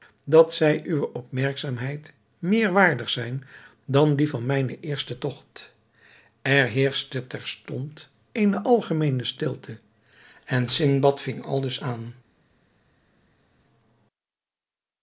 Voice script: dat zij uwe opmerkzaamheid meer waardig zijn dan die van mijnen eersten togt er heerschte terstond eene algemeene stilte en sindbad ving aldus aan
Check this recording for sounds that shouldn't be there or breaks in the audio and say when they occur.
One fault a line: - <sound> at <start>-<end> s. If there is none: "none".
none